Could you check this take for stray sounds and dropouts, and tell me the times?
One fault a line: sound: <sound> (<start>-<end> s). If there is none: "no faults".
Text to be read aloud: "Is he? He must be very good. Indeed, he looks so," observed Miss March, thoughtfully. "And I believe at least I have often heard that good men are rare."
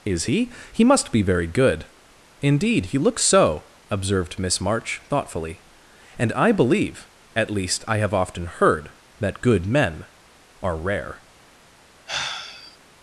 sound: sigh (12.1-12.8 s)